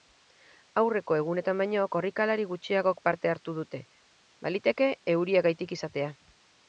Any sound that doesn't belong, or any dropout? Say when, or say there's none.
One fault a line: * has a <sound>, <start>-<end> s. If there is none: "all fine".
all fine